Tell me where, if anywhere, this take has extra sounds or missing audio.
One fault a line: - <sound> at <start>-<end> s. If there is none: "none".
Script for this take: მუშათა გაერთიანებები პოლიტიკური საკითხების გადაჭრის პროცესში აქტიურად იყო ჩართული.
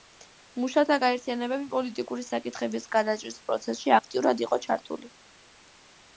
none